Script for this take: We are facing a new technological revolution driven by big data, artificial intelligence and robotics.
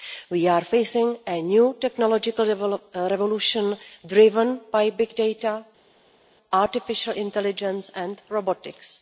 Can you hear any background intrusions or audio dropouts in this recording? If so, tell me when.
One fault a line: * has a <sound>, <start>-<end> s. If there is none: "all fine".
all fine